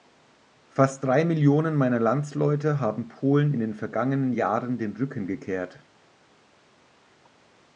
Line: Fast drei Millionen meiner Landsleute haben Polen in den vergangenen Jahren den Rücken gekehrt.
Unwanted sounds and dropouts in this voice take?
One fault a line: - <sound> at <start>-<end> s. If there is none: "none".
none